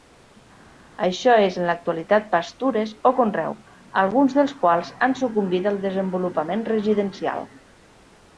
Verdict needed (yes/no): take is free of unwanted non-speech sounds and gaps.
yes